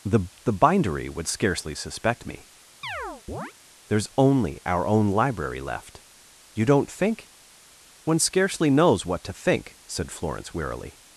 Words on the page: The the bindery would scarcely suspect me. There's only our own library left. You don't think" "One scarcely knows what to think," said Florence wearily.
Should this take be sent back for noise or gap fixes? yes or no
yes